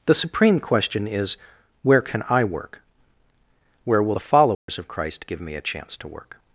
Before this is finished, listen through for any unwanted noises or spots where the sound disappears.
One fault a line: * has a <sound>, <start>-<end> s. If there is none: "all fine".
* has a dropout, 4.5-4.7 s